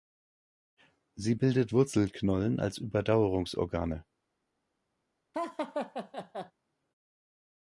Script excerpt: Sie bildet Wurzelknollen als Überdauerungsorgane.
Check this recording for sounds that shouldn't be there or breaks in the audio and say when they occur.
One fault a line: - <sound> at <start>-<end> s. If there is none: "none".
- laugh at 5.3-6.5 s